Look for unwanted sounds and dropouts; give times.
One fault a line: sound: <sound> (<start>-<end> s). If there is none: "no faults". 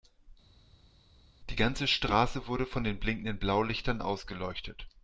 no faults